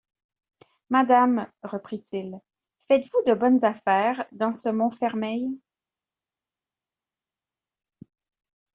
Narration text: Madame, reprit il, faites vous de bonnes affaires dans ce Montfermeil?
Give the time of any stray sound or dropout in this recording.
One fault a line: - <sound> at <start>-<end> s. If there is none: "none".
none